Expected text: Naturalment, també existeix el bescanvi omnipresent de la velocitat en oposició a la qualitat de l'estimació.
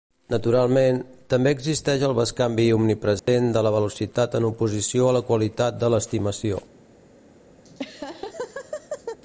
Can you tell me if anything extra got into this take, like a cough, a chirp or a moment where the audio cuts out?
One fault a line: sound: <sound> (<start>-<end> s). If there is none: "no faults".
sound: dropout (3.2-3.3 s)
sound: laugh (7.6-9.2 s)